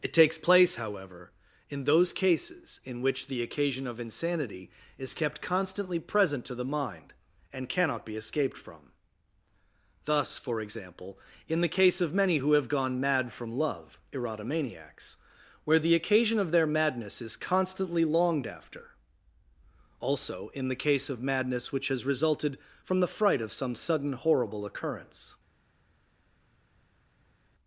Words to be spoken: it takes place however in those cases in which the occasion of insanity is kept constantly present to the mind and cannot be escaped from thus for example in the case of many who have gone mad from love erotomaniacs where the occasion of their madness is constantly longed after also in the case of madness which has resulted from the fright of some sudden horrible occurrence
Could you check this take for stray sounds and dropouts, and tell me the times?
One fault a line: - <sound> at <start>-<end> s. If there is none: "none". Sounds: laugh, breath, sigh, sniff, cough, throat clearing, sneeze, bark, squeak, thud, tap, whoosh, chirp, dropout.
none